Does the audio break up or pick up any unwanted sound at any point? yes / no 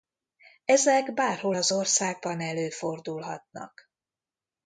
no